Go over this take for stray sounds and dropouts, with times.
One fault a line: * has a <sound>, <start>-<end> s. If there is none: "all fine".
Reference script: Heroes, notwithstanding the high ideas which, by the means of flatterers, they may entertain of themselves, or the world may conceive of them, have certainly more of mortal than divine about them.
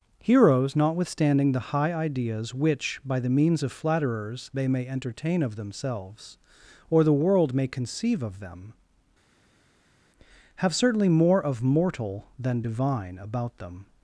all fine